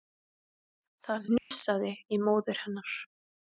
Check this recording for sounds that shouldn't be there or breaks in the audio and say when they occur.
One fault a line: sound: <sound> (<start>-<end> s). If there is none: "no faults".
sound: dropout (1.4-1.5 s)